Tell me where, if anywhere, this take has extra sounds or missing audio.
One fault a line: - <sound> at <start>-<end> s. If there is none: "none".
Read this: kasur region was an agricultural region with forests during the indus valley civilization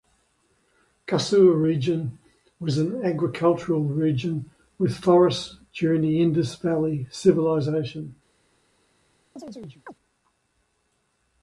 - chirp at 9.4-9.9 s